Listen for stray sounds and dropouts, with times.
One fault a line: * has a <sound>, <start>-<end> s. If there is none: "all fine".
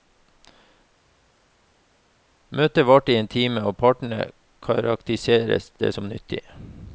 all fine